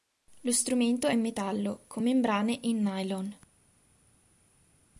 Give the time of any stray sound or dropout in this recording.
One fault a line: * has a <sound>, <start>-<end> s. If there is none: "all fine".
all fine